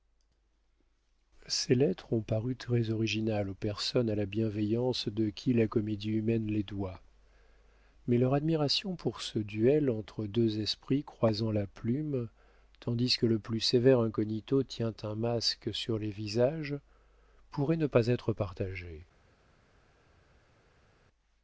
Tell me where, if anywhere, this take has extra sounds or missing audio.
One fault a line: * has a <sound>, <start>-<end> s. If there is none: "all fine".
all fine